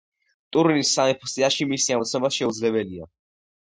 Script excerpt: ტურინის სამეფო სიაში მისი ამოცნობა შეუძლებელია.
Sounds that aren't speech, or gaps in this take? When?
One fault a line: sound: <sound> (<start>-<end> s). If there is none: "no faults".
no faults